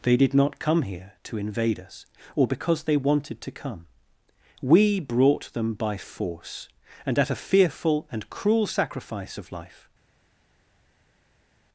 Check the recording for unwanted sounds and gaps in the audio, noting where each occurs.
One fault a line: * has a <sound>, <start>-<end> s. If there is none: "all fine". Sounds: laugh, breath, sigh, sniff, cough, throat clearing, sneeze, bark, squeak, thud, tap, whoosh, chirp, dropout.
all fine